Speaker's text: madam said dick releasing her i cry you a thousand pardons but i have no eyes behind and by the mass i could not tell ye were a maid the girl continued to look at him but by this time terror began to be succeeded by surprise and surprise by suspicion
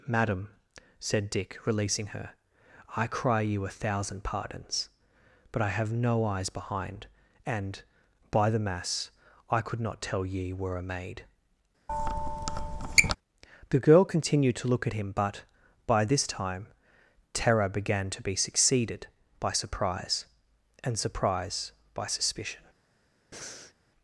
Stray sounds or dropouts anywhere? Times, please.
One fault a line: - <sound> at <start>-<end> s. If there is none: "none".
- squeak at 11.9-13.2 s
- breath at 23.3-23.7 s